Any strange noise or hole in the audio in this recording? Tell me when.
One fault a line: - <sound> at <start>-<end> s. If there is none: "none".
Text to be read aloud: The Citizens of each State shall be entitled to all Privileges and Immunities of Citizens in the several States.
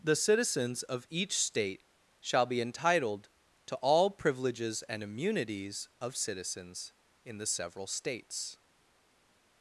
none